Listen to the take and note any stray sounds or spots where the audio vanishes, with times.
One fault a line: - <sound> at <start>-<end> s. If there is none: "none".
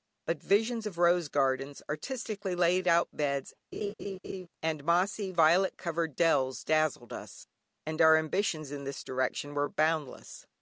- laugh at 3.7-4.5 s